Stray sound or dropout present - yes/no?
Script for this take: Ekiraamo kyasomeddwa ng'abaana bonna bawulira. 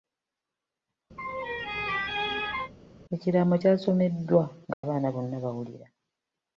yes